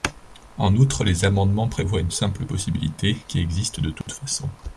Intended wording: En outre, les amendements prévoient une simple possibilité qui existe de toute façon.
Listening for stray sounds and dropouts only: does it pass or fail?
fail